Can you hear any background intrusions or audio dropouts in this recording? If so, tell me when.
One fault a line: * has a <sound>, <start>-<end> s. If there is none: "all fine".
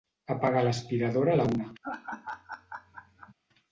* has a laugh, 1.8-3.3 s